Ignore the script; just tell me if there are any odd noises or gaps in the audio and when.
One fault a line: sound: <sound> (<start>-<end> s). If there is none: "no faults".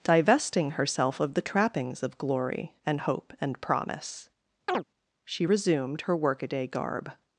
sound: chirp (4.7-4.8 s)